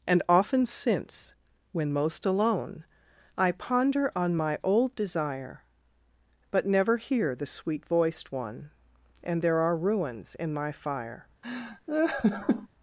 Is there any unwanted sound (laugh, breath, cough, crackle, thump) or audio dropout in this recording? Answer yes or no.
yes